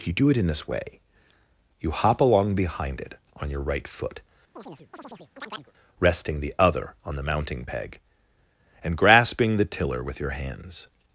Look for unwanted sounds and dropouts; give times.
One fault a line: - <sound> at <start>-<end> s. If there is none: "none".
- chirp at 4.6-5.7 s